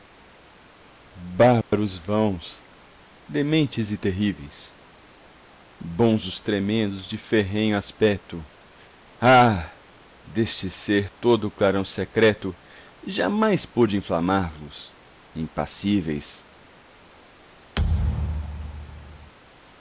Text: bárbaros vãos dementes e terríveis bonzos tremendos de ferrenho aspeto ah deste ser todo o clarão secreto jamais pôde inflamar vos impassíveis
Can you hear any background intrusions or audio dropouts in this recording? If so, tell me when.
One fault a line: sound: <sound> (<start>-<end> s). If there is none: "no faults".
sound: dropout (1.6-1.7 s)
sound: thud (17.8-19.3 s)